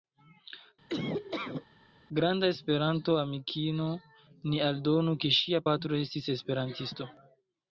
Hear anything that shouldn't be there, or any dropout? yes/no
yes